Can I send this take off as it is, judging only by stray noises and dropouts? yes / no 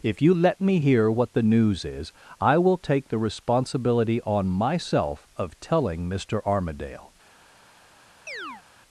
no